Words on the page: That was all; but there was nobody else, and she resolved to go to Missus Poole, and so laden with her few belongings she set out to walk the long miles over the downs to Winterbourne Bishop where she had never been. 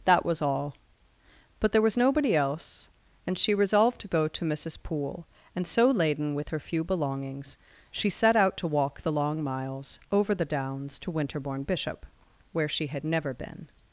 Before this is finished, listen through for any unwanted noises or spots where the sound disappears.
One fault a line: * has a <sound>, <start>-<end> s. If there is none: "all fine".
all fine